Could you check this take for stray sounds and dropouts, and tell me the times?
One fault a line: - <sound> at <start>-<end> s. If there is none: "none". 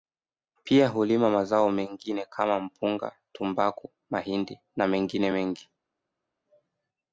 none